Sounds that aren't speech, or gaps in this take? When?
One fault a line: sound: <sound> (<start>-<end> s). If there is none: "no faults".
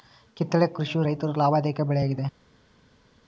no faults